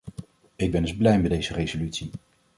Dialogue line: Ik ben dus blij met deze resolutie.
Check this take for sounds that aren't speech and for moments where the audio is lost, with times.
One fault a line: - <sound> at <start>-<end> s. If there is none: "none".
none